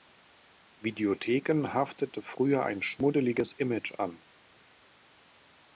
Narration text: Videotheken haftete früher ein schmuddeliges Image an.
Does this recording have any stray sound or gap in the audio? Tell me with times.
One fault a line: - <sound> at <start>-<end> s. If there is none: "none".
none